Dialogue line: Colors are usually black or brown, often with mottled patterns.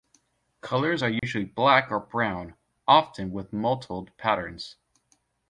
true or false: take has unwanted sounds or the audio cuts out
true